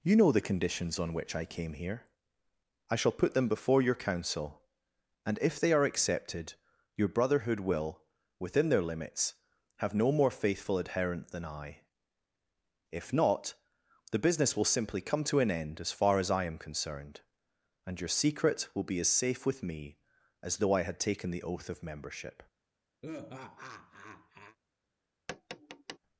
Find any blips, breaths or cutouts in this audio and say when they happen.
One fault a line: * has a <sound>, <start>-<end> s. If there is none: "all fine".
* has a laugh, 23.0-24.6 s
* has a tap, 25.3-26.0 s